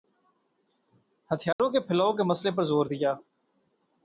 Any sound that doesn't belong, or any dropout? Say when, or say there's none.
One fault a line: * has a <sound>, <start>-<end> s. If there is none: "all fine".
* has a dropout, 1.5-1.6 s